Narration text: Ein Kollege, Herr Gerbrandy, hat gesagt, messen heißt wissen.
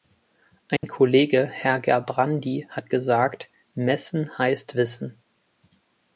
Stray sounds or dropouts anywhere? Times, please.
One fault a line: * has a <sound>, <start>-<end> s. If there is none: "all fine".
* has a dropout, 0.8-0.8 s